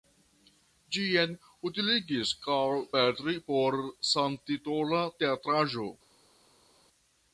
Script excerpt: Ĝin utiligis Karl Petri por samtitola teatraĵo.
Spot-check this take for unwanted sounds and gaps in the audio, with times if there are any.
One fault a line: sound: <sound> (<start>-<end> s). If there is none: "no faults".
no faults